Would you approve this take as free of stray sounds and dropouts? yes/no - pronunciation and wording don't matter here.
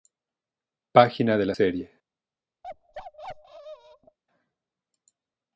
no